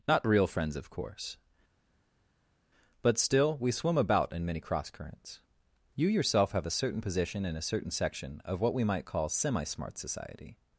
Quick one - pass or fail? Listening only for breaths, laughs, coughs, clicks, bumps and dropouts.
pass